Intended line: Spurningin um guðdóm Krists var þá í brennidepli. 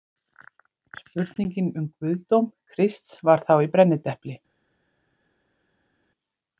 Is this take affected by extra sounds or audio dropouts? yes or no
no